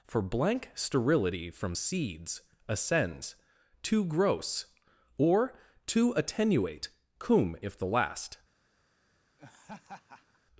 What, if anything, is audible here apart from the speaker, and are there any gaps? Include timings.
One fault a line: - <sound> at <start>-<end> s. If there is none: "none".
- laugh at 9.4-10.4 s